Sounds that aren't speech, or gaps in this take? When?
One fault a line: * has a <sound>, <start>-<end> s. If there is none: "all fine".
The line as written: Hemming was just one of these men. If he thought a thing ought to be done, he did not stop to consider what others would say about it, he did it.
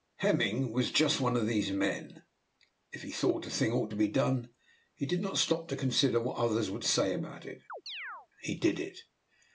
* has a chirp, 7.7-8.3 s